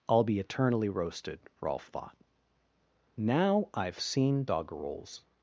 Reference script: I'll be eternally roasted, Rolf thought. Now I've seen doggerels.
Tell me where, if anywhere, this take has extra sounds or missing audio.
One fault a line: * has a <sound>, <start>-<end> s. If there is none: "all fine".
all fine